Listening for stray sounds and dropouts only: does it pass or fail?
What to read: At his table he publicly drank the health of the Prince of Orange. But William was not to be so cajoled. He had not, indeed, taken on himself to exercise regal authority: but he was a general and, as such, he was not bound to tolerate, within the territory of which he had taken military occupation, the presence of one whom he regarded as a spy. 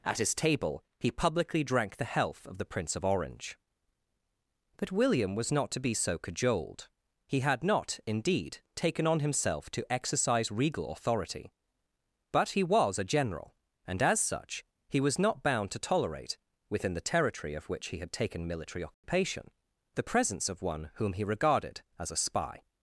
fail